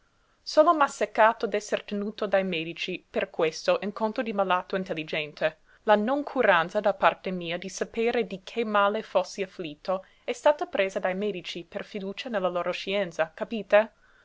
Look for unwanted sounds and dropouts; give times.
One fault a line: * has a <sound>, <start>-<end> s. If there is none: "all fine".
all fine